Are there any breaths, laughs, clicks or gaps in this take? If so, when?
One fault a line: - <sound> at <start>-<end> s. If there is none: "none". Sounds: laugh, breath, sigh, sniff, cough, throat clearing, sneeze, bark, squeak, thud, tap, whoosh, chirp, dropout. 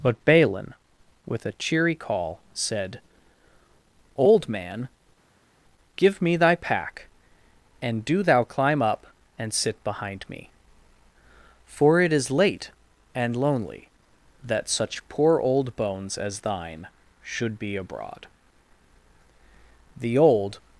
none